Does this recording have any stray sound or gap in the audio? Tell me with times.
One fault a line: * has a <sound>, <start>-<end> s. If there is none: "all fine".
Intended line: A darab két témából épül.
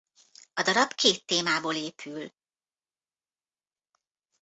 all fine